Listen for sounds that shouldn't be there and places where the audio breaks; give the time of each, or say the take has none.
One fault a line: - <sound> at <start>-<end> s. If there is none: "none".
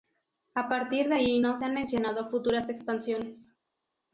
none